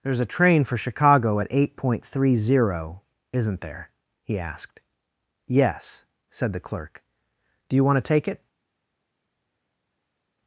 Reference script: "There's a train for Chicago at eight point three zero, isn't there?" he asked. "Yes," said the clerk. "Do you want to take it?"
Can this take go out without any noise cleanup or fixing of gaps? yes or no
yes